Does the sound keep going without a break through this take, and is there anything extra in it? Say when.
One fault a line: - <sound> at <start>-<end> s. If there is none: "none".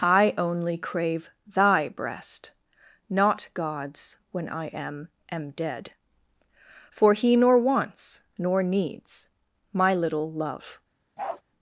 - bark at 11.2-11.4 s